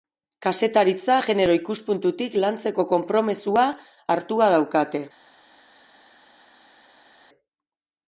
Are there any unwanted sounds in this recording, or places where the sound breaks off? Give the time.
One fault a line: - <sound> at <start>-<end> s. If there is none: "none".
none